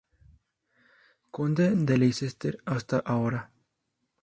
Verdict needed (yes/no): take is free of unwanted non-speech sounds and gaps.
yes